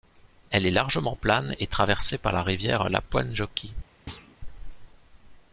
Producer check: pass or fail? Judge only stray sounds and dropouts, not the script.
fail